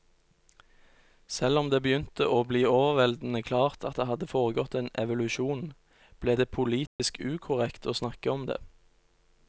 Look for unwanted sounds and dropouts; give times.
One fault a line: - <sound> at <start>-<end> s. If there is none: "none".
- dropout at 6.9-7.0 s